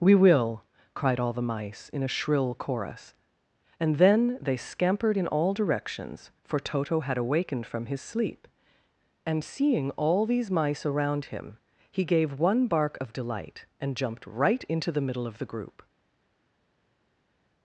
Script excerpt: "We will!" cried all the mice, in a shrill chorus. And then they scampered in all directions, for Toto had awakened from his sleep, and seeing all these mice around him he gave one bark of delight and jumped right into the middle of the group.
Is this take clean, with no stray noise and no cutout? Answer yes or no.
yes